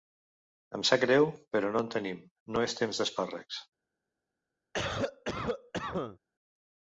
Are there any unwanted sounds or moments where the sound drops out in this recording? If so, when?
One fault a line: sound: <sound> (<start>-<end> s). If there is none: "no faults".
sound: cough (4.7-6.2 s)